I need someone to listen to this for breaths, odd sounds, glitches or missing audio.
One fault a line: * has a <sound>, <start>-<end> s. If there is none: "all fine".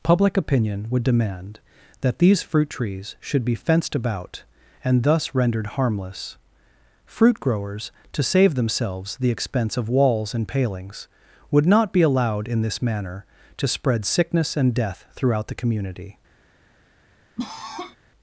* has a cough, 17.4-18.0 s